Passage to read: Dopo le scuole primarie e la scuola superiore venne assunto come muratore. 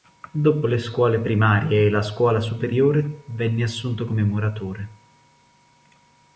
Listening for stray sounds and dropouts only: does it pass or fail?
pass